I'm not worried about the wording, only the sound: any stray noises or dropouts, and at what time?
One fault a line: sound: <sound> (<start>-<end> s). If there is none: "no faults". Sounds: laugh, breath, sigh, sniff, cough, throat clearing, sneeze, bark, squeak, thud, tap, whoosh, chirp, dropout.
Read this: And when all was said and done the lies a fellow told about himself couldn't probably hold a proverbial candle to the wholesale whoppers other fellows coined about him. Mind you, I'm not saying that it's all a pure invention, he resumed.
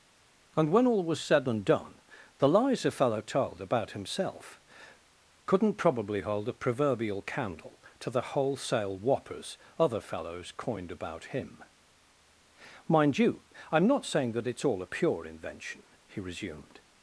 no faults